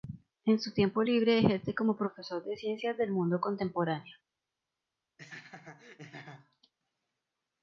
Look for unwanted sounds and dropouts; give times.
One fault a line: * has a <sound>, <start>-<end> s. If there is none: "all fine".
* has a laugh, 5.2-6.7 s